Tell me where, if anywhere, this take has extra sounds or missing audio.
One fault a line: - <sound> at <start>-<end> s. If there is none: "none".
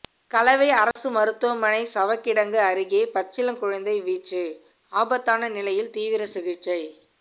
- dropout at 0.9-1.0 s